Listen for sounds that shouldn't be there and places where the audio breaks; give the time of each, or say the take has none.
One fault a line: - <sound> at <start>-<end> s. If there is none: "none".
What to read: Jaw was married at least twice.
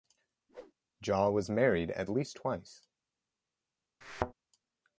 - whoosh at 0.5-0.7 s
- thud at 4.0-4.3 s